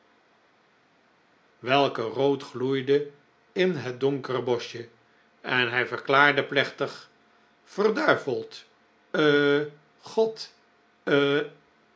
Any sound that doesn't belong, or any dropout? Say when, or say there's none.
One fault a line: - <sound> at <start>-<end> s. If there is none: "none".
none